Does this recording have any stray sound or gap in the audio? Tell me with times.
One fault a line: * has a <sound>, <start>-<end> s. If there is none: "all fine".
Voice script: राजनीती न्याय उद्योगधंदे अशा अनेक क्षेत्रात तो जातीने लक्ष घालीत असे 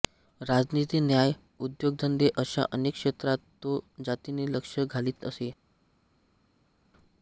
all fine